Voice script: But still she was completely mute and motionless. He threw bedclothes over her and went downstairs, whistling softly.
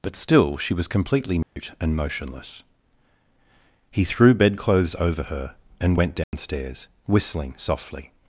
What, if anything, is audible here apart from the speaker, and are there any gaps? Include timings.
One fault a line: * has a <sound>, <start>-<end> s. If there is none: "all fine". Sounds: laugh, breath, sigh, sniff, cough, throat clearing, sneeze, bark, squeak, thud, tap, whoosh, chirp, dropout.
* has a dropout, 1.4-1.6 s
* has a dropout, 6.2-6.3 s